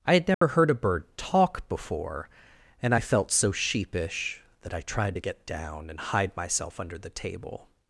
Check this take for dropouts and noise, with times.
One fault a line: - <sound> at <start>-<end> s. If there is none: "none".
- dropout at 0.3-0.4 s